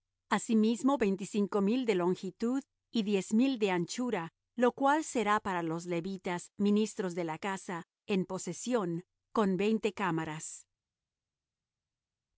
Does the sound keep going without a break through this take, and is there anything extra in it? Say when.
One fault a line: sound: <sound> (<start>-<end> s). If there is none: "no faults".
no faults